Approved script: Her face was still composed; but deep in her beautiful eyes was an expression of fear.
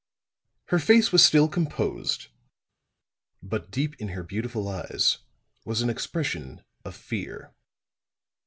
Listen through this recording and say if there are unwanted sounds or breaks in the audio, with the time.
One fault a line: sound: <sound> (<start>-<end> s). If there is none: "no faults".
no faults